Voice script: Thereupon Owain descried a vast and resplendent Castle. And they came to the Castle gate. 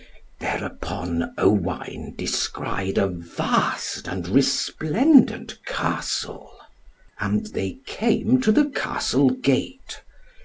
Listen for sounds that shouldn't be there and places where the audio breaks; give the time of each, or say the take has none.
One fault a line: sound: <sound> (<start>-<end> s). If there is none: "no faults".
no faults